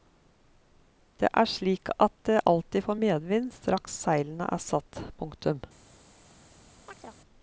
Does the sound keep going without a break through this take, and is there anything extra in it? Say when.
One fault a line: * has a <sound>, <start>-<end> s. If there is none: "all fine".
* has a chirp, 6.9-7.2 s